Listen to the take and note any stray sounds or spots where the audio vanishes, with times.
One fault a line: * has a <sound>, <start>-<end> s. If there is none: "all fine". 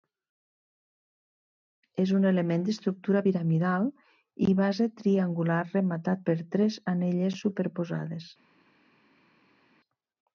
all fine